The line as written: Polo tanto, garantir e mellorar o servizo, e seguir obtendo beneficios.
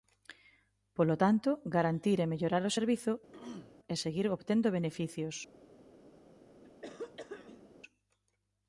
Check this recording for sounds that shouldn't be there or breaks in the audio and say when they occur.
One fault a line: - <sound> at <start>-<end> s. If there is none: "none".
- throat clearing at 3.3-3.8 s
- throat clearing at 6.6-7.7 s